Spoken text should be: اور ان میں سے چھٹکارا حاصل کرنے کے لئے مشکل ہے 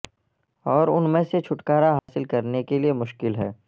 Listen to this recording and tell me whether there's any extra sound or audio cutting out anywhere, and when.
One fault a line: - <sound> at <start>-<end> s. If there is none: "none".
- dropout at 2.0-2.1 s